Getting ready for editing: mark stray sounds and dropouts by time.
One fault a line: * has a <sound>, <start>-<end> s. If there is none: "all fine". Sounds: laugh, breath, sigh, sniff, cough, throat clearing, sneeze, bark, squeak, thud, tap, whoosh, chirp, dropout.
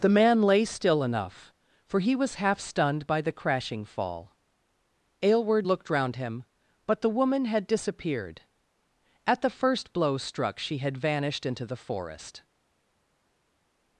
all fine